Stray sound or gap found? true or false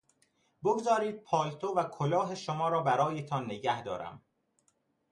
false